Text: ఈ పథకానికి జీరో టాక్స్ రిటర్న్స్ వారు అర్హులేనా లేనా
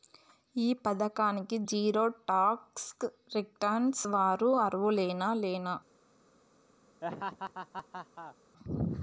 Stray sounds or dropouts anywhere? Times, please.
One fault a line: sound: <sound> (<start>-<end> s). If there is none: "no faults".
sound: laugh (7.0-8.4 s)